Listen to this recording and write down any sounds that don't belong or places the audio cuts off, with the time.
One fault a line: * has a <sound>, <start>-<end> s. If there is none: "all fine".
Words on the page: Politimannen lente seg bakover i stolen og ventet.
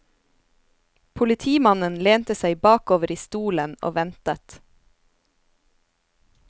all fine